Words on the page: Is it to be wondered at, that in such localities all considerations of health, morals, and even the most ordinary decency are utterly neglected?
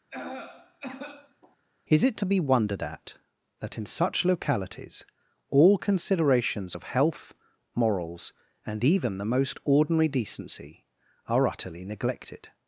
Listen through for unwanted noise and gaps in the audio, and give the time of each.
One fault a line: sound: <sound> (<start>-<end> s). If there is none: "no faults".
sound: cough (0.1-1.6 s)